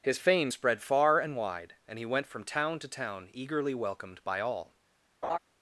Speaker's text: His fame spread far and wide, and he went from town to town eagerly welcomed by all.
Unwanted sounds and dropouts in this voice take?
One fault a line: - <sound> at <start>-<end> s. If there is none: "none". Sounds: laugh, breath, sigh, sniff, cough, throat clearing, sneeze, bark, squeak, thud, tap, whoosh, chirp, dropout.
- laugh at 5.2-5.4 s